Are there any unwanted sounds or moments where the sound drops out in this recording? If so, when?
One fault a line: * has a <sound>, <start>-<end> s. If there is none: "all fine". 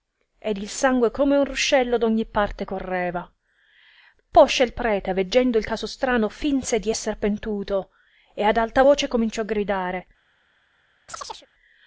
* has a chirp, 11.1-11.5 s